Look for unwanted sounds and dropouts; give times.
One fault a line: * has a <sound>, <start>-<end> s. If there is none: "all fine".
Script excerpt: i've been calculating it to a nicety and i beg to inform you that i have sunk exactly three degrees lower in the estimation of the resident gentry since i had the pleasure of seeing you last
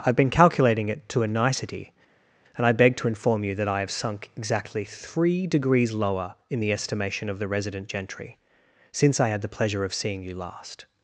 all fine